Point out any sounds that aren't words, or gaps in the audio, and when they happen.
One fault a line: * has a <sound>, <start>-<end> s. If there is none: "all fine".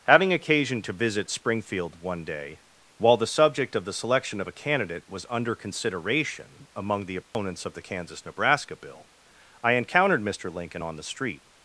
* has a dropout, 7.2-7.3 s